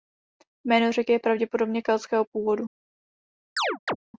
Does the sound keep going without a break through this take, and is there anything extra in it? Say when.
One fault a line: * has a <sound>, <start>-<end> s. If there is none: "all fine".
* has a chirp, 3.6-4.0 s